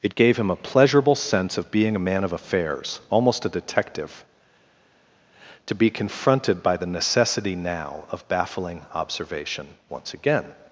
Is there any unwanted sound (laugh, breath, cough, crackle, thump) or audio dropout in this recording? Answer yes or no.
no